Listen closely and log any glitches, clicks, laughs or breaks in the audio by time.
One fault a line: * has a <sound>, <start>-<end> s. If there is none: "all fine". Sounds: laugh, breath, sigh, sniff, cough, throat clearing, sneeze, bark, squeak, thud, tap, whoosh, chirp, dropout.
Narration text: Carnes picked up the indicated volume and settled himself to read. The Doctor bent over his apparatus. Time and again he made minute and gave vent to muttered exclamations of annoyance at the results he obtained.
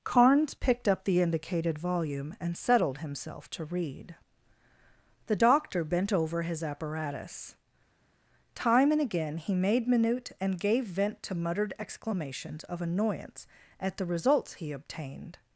all fine